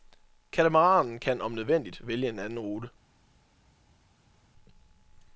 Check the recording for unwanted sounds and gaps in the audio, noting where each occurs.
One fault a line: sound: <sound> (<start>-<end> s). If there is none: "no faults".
no faults